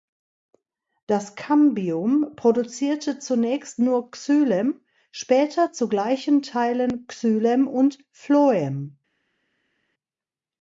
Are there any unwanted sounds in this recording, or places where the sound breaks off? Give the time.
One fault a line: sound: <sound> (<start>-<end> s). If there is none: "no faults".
no faults